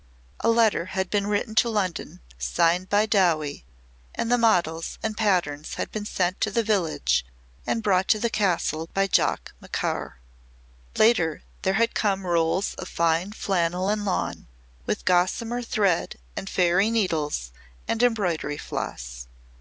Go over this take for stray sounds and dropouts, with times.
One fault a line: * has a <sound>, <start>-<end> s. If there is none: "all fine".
all fine